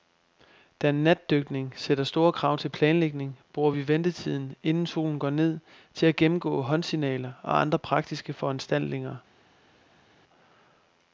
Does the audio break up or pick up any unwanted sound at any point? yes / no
no